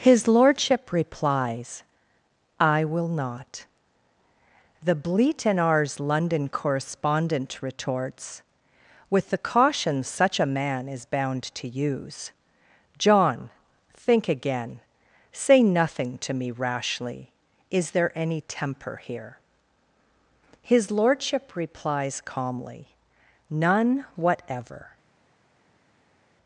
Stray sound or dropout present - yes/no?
no